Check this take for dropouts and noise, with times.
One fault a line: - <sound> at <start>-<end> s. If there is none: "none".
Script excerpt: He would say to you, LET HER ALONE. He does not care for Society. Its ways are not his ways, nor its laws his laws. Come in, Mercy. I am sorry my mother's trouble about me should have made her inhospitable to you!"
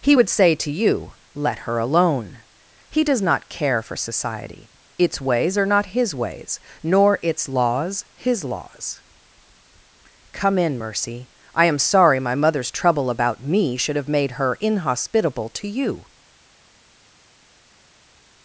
none